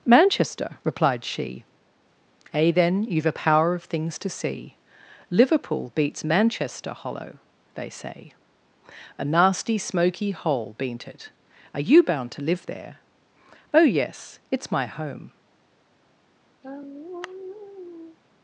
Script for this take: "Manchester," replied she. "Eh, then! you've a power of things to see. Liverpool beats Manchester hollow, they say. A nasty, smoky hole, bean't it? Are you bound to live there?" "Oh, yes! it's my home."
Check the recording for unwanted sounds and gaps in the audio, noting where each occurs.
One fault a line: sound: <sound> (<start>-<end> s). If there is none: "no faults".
sound: sigh (16.6-18.2 s)